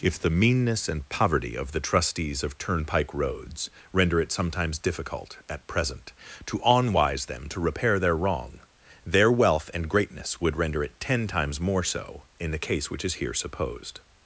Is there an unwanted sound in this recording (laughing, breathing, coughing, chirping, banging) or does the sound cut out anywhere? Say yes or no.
no